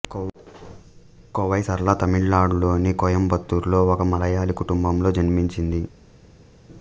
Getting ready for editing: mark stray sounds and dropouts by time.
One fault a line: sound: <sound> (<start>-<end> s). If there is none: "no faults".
no faults